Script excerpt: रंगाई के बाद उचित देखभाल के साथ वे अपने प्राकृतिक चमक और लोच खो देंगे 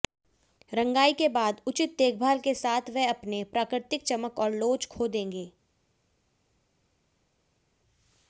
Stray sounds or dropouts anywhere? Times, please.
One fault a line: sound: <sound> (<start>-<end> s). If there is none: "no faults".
no faults